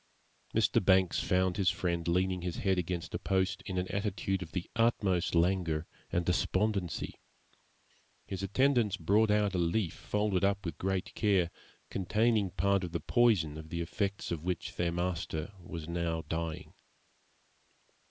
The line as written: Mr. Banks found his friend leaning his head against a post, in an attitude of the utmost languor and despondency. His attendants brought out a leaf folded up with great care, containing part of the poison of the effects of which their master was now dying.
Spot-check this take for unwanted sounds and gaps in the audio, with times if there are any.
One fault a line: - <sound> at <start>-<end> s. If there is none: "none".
none